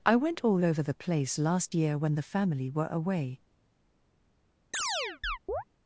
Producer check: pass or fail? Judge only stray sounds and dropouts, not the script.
fail